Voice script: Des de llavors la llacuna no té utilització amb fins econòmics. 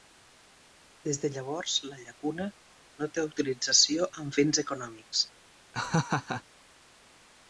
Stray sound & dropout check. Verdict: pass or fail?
fail